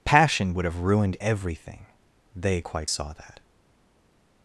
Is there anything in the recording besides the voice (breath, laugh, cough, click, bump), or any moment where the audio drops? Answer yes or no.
no